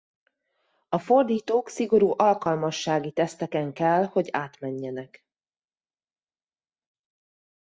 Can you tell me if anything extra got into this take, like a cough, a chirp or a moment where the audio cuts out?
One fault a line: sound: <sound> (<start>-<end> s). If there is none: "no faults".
no faults